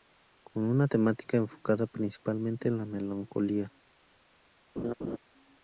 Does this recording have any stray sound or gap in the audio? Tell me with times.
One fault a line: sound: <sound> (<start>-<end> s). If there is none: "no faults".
sound: laugh (4.8-5.2 s)